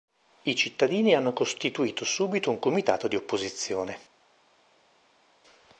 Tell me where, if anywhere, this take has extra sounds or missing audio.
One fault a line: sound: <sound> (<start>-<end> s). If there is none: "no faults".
no faults